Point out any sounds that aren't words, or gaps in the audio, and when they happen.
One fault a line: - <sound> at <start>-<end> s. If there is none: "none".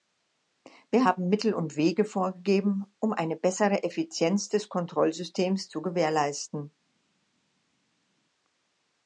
none